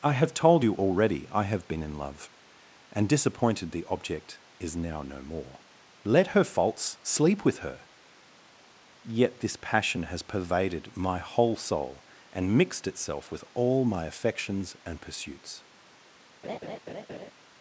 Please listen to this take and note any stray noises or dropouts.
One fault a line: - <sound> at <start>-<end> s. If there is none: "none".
- laugh at 16.4-17.3 s